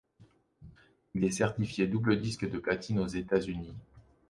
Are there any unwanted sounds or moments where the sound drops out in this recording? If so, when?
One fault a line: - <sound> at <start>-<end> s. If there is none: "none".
none